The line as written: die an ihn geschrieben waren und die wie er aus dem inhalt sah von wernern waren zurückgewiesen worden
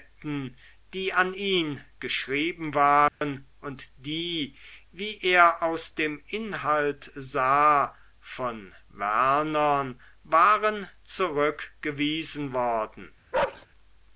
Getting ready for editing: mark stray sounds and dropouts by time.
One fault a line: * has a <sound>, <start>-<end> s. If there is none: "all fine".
* has a dropout, 3.1-3.2 s
* has a bark, 13.3-13.7 s